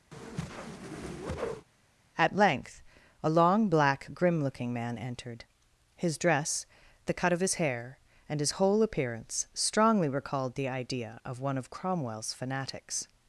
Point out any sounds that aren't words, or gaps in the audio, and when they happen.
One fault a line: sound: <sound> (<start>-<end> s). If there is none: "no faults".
sound: whoosh (0.1-1.7 s)